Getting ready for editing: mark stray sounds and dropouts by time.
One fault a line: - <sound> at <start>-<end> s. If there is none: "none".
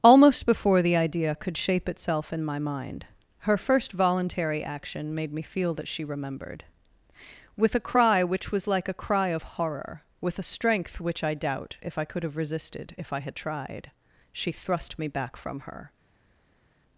none